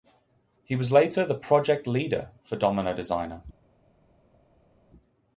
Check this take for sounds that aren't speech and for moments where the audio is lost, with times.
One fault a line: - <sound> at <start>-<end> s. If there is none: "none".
none